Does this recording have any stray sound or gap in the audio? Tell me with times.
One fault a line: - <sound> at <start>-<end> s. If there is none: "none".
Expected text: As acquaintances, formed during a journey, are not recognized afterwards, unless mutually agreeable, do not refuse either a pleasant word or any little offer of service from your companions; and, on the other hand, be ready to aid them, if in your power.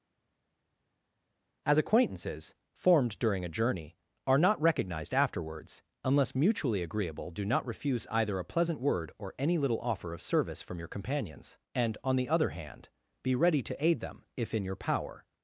none